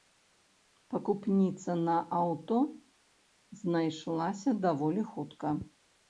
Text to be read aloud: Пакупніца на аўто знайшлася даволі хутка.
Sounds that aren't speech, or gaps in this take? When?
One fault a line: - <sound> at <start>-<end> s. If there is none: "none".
none